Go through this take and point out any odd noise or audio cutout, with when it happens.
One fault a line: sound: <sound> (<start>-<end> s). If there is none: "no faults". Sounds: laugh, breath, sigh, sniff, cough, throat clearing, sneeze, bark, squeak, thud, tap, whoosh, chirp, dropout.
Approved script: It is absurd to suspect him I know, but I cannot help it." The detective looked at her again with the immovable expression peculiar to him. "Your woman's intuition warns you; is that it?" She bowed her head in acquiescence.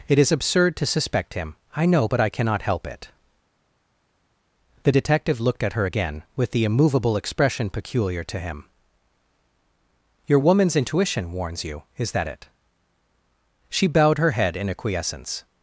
no faults